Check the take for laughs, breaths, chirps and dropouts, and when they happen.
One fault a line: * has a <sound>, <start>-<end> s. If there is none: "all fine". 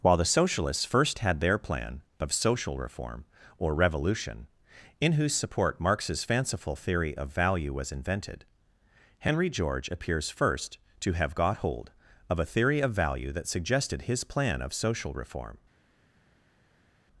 all fine